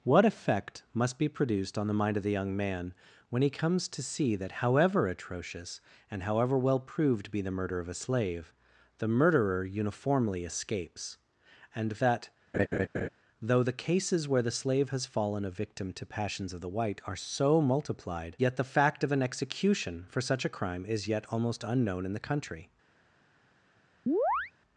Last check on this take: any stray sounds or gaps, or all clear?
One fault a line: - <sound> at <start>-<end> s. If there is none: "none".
- laugh at 12.5-13.1 s
- chirp at 24.1-24.5 s